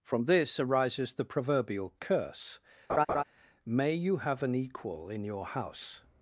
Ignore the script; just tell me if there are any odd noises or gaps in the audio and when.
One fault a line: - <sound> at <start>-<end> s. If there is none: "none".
- laugh at 2.9-3.2 s